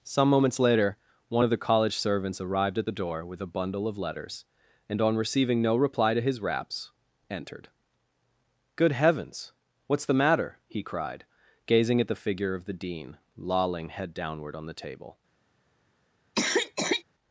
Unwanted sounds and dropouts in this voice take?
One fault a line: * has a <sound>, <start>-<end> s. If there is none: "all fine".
* has a cough, 16.3-17.0 s